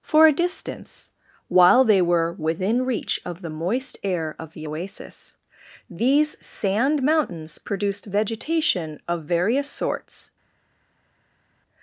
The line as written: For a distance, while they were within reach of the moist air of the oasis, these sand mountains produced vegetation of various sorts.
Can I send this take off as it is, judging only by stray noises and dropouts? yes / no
yes